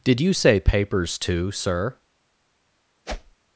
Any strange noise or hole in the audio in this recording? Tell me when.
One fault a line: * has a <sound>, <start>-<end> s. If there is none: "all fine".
* has a whoosh, 3.1-3.4 s